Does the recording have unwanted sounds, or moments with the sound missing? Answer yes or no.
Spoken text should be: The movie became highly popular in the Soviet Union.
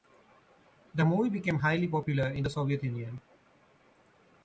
no